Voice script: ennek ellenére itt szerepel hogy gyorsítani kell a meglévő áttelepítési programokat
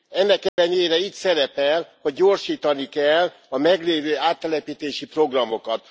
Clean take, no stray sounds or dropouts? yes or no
no